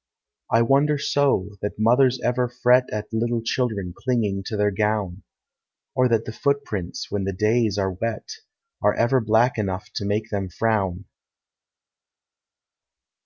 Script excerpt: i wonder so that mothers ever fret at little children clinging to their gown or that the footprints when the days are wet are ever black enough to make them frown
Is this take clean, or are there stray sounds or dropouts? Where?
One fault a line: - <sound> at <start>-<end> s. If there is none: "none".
none